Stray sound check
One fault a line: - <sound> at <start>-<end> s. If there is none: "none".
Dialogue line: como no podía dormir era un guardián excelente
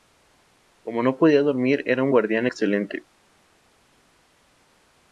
none